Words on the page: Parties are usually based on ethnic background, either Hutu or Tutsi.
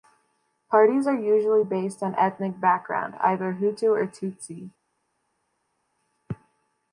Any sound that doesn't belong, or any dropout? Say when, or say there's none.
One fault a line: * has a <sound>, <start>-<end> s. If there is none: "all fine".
all fine